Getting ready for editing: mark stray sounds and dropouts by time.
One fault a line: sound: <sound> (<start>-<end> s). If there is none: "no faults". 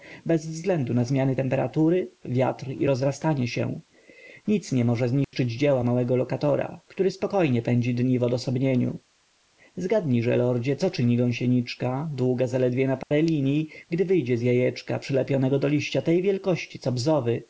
sound: dropout (5.2-5.3 s)
sound: dropout (13.0-13.1 s)